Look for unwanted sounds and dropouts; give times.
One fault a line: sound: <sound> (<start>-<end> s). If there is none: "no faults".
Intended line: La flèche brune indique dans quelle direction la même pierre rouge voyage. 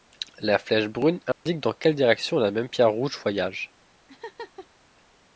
sound: dropout (1.3-1.5 s)
sound: laugh (4.1-4.7 s)